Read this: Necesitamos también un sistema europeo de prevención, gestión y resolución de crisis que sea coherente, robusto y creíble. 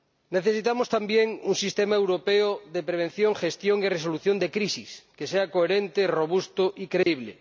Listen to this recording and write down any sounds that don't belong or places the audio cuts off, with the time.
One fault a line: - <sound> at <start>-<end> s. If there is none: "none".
- dropout at 7.0-7.1 s